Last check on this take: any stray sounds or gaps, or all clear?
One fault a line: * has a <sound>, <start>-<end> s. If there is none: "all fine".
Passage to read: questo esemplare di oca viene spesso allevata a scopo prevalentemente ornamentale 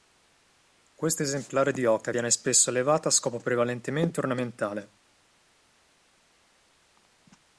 all fine